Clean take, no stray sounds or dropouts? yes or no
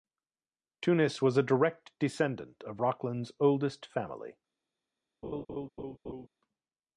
no